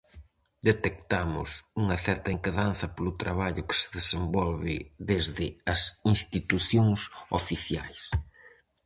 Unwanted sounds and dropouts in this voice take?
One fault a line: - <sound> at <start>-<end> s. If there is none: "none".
none